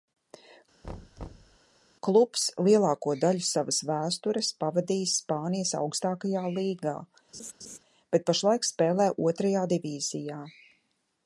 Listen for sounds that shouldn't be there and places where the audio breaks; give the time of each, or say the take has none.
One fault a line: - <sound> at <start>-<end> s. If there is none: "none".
- thud at 0.8-1.6 s
- laugh at 7.3-7.8 s